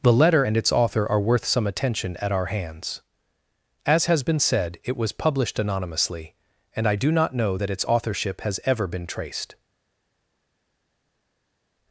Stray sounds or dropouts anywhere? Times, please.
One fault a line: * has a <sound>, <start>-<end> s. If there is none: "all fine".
all fine